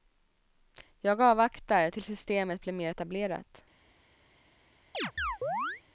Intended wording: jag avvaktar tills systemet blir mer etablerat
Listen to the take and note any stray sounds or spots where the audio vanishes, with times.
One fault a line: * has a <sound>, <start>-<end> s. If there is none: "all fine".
* has a chirp, 4.9-5.8 s